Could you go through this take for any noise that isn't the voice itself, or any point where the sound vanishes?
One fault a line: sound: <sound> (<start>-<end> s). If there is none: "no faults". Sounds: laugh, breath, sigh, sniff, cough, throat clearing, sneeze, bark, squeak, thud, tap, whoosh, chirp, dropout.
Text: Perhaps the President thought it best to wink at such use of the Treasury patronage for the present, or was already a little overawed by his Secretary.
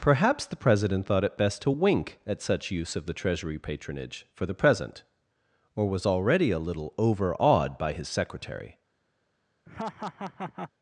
sound: laugh (9.7-10.7 s)